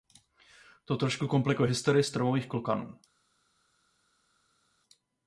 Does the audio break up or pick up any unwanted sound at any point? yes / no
no